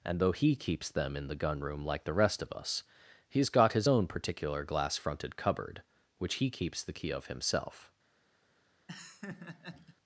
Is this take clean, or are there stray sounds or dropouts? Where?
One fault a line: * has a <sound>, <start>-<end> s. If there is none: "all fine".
* has a laugh, 8.9-10.0 s